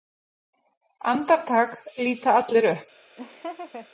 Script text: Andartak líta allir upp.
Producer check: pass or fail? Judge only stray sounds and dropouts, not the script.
fail